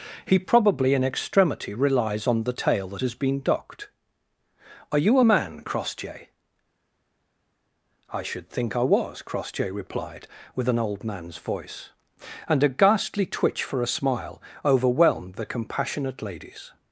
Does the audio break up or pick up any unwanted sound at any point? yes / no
no